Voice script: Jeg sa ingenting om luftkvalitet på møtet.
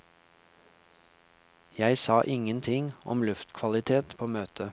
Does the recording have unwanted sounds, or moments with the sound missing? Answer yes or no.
no